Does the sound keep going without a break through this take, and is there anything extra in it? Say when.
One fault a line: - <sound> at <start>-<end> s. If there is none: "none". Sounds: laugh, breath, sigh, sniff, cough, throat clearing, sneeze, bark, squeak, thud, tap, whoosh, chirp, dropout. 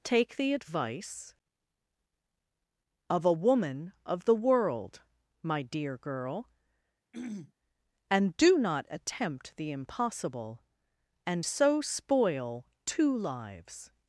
- throat clearing at 7.1-7.5 s